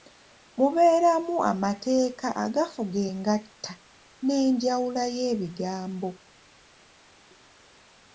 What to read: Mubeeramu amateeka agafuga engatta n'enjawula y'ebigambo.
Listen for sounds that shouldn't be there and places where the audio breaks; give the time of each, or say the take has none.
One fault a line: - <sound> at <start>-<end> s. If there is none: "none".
none